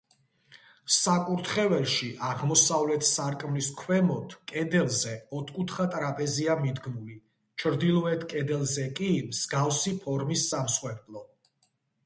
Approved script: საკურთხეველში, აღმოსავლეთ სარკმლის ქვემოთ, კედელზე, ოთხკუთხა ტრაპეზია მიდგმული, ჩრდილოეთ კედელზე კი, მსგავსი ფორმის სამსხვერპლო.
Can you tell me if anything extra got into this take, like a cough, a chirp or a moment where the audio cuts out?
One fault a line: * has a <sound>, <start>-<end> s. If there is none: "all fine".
all fine